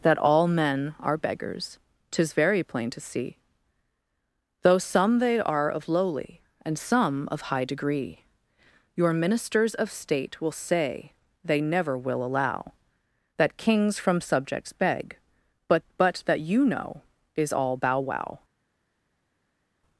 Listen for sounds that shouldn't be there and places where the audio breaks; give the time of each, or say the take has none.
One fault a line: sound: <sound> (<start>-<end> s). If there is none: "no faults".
no faults